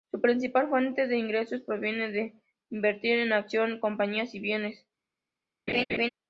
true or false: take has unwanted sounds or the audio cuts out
true